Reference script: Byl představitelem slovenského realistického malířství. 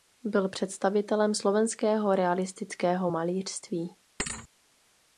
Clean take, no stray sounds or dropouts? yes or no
no